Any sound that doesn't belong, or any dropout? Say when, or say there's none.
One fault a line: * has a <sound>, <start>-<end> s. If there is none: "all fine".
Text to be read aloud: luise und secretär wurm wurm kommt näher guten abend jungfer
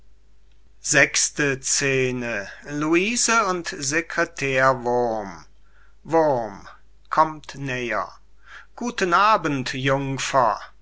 all fine